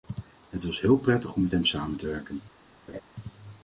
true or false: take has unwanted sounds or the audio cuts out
true